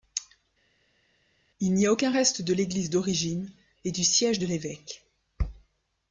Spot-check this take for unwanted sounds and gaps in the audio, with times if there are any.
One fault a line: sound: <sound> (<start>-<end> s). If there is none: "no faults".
no faults